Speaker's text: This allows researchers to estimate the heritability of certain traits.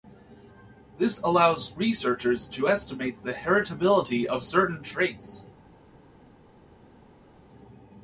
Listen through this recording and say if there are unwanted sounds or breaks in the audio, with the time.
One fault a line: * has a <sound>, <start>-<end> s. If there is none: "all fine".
all fine